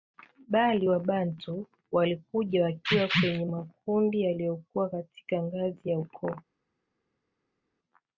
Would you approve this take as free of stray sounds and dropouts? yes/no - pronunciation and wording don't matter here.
yes